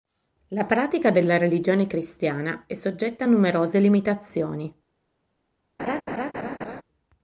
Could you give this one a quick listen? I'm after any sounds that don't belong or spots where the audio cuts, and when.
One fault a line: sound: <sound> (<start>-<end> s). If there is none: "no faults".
sound: laugh (5.8-6.8 s)